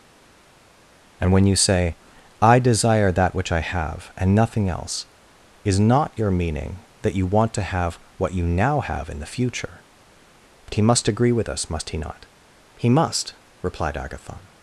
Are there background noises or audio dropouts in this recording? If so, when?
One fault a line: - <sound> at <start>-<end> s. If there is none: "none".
none